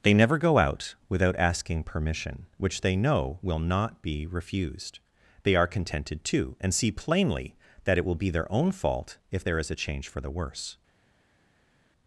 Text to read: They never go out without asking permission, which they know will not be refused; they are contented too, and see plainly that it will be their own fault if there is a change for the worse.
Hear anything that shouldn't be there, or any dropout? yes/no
no